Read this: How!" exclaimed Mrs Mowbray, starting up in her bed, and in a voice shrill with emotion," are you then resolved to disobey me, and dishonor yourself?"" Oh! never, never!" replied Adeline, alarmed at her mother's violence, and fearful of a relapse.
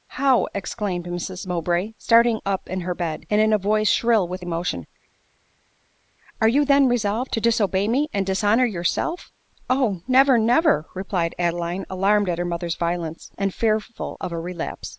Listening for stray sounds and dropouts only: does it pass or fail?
pass